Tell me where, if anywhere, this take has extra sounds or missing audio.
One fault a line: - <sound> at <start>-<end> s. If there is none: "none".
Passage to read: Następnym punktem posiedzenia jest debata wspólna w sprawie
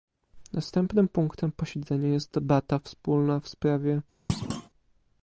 - thud at 4.3-4.7 s